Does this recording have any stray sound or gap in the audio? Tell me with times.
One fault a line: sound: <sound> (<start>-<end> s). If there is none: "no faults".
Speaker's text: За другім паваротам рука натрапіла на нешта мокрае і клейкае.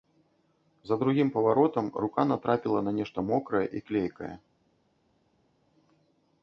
no faults